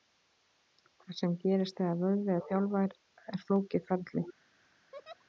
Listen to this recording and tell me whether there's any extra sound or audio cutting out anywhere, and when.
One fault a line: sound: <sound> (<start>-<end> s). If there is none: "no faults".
sound: laugh (4.9-5.2 s)